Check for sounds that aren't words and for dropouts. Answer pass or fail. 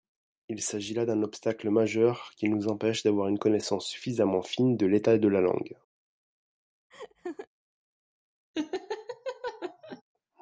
fail